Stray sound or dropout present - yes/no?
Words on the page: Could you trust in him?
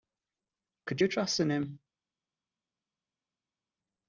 no